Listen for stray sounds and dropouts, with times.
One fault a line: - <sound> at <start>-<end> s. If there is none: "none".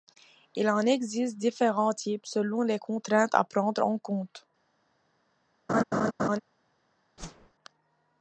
- laugh at 5.7-6.4 s
- whoosh at 7.2-7.5 s